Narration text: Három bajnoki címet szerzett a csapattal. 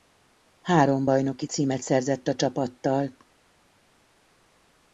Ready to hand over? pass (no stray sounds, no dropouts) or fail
pass